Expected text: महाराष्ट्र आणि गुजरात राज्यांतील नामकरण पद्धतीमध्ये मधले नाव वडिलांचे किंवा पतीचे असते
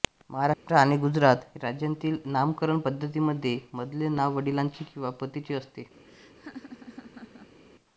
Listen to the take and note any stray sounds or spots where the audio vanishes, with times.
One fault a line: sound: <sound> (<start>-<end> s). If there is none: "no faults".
sound: dropout (0.5-0.7 s)
sound: laugh (6.0-7.6 s)